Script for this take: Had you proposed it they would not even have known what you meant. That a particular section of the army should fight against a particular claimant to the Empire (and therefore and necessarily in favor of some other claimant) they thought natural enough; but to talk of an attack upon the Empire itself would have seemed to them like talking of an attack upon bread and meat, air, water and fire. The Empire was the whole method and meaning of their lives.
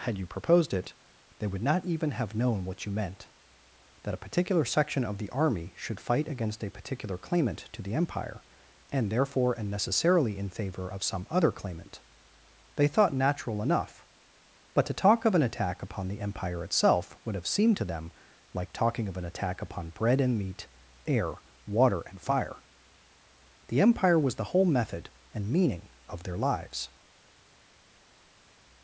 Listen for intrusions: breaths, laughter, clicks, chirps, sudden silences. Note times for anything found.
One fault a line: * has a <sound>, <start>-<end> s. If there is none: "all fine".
all fine